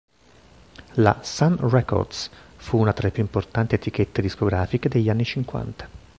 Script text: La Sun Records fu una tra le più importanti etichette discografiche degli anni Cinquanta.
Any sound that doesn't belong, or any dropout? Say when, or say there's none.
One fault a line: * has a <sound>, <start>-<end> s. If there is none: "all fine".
all fine